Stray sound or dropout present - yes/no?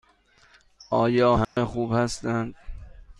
yes